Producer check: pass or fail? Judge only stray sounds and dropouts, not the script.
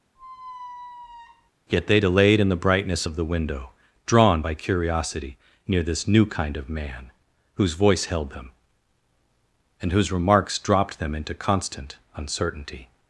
fail